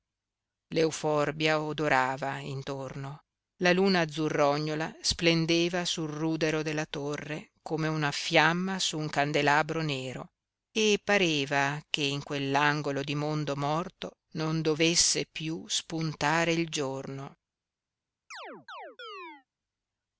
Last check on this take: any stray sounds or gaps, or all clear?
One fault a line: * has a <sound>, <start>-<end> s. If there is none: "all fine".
* has a chirp, 18.3-19.5 s